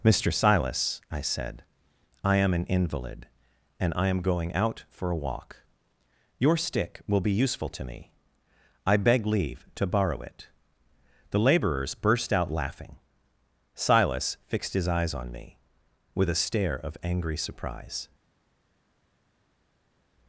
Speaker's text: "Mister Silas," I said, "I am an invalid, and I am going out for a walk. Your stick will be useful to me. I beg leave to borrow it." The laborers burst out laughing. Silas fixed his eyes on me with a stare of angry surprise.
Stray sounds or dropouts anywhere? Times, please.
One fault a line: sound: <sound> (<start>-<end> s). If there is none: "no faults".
no faults